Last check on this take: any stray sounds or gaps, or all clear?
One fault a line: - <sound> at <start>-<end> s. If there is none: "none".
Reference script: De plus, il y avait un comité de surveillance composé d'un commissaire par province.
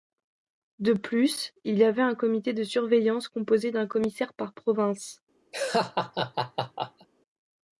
- laugh at 5.5-7.1 s